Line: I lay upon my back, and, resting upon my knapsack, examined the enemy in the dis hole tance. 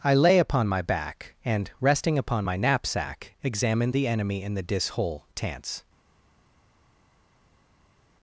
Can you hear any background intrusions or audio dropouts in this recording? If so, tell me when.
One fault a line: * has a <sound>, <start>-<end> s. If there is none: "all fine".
all fine